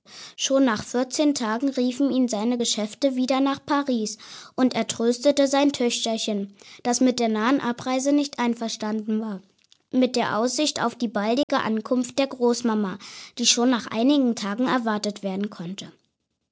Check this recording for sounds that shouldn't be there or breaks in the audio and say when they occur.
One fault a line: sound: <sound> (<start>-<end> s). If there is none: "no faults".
sound: dropout (11.4-11.5 s)